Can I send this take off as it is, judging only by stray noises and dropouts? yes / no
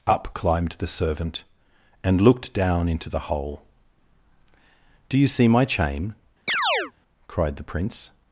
no